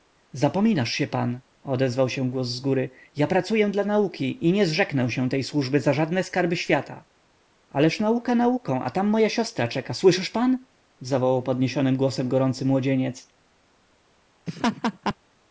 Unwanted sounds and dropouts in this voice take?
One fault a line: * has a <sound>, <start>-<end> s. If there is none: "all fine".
* has a laugh, 14.5-15.2 s